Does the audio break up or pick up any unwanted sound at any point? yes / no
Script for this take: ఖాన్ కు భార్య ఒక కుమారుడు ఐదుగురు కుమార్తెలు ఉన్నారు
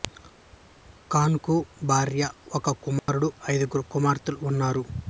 yes